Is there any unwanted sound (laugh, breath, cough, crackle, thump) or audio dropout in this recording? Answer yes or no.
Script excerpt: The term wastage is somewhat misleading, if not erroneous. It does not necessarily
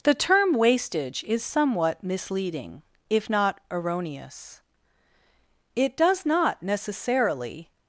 no